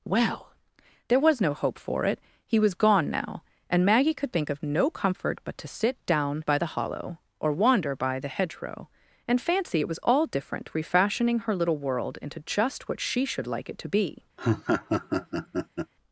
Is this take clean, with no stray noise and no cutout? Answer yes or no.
no